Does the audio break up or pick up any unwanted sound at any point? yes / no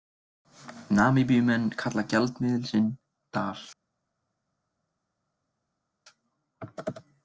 no